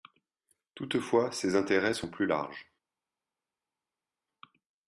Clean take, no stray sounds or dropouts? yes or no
yes